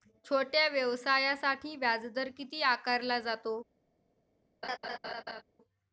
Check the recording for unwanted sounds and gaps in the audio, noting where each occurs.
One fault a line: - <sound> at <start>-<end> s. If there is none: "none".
- laugh at 4.6-5.4 s